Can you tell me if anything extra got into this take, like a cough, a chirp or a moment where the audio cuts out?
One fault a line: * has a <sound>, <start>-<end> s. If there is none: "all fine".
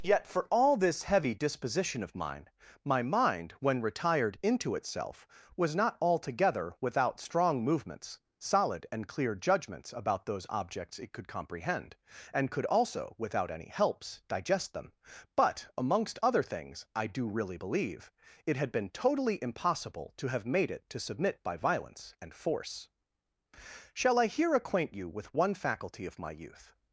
all fine